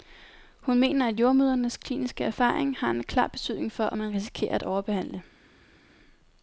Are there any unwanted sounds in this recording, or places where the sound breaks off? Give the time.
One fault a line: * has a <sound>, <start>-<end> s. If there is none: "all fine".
all fine